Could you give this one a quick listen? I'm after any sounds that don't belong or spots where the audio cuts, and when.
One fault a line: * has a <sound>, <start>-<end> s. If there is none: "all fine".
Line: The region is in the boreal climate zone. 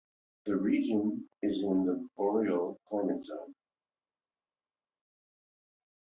all fine